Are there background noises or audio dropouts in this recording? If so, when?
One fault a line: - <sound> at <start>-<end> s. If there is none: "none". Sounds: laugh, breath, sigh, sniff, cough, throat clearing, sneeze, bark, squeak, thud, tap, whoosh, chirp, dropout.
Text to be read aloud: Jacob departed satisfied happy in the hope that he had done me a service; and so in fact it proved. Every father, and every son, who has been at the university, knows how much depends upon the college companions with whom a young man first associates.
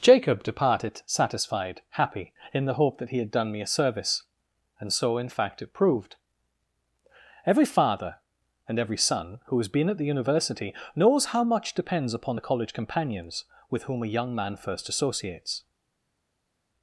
none